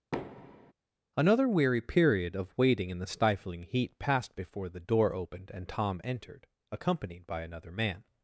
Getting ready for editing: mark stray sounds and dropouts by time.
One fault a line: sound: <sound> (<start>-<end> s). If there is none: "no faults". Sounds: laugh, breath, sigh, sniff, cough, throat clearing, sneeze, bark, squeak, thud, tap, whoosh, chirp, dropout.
sound: thud (0.1-0.7 s)